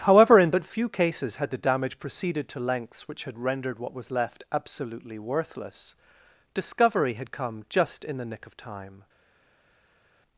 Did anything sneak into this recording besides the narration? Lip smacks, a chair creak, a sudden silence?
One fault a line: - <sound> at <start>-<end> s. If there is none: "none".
none